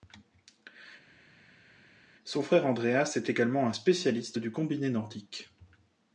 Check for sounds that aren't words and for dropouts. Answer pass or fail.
pass